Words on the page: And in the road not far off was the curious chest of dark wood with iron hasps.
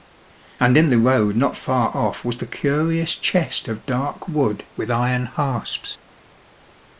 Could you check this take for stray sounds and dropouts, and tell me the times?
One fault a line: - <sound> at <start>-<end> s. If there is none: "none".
none